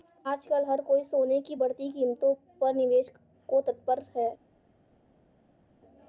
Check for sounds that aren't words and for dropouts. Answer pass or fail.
pass